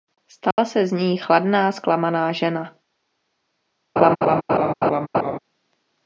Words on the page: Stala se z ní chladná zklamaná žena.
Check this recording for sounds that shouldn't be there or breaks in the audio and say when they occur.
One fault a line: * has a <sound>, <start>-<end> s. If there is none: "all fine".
* has a dropout, 0.5-0.6 s
* has a laugh, 4.0-5.4 s